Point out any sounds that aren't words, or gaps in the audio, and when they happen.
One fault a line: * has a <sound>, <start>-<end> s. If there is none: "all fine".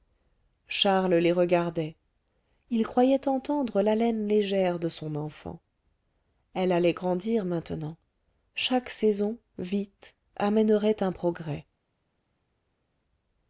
all fine